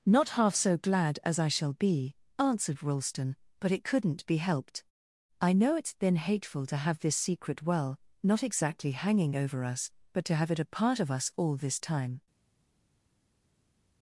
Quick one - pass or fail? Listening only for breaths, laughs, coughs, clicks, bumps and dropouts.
pass